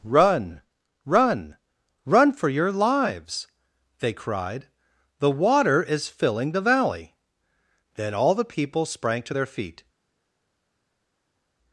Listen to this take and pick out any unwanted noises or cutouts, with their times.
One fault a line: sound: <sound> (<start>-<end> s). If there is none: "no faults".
no faults